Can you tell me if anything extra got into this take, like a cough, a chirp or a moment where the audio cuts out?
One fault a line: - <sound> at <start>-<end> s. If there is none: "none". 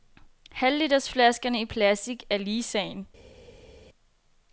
none